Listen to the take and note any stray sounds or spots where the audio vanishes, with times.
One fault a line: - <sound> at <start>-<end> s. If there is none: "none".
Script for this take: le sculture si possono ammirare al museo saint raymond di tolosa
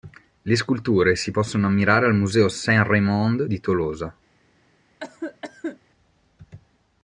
- cough at 5.0-5.8 s